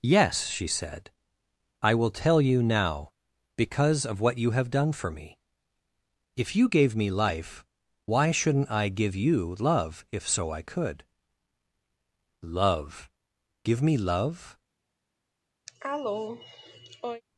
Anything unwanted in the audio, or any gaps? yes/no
yes